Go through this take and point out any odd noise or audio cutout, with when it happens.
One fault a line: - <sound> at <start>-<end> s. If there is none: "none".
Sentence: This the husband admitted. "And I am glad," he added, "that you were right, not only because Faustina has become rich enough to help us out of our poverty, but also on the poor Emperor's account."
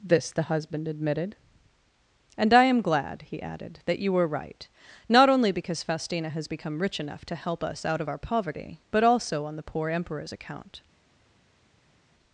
none